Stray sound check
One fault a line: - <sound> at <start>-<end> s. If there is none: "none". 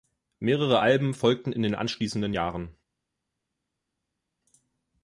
none